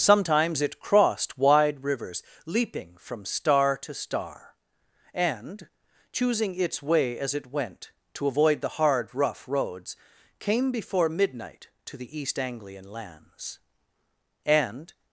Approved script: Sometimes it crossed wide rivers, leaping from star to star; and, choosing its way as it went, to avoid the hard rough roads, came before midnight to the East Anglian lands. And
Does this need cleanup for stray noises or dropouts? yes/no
no